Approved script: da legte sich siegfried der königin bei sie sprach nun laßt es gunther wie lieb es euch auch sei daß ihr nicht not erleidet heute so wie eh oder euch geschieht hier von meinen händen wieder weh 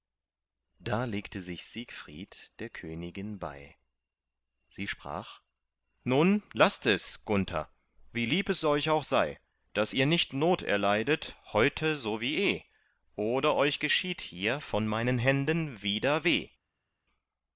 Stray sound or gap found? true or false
false